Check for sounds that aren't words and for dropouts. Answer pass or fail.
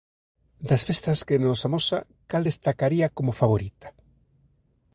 pass